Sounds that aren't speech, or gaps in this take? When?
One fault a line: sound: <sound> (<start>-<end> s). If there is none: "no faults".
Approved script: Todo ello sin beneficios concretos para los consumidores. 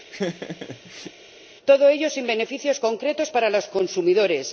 sound: laugh (0.1-1.1 s)